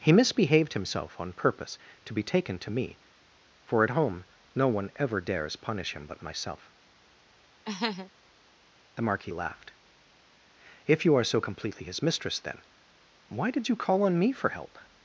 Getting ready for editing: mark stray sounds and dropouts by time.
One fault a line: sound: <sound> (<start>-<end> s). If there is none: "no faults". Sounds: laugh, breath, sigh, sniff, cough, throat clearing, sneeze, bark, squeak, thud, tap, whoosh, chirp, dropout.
sound: laugh (7.6-8.1 s)